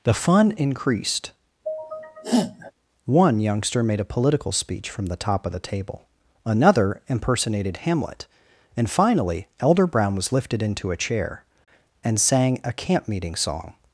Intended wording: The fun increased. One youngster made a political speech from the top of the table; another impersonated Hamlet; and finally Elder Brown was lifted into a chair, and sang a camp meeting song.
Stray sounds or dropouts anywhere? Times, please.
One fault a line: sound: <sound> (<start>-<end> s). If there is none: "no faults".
sound: sneeze (1.6-2.7 s)